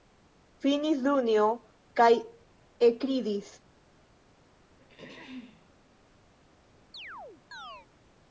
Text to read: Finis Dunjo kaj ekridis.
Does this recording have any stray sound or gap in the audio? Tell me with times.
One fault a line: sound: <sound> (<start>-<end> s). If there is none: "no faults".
sound: throat clearing (4.8-5.7 s)
sound: chirp (6.9-7.9 s)